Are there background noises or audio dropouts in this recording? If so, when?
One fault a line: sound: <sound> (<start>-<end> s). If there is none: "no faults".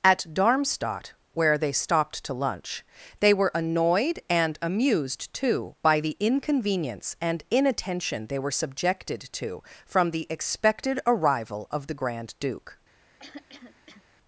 sound: throat clearing (13.2-14.0 s)